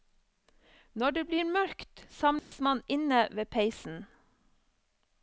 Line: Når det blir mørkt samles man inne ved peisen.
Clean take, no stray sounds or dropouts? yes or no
no